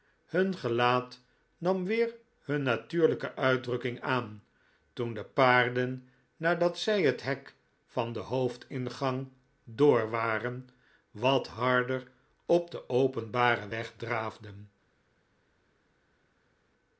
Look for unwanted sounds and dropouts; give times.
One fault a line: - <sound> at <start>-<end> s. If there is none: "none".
none